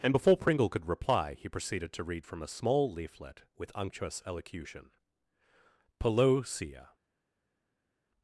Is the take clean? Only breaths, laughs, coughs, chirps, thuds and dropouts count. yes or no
yes